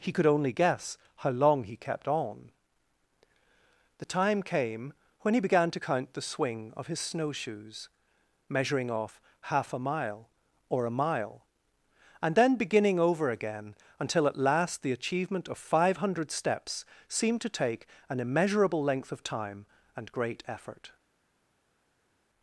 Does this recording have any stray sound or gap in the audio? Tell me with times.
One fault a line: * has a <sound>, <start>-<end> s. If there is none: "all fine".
all fine